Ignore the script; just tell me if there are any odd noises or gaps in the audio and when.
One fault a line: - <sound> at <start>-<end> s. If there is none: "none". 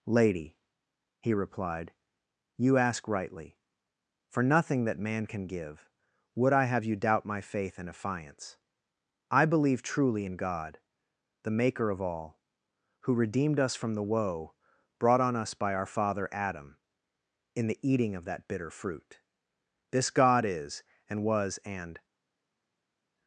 none